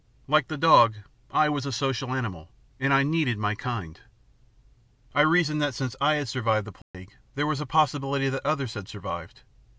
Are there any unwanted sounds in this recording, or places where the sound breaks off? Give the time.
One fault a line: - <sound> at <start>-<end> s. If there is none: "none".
- dropout at 6.8-6.9 s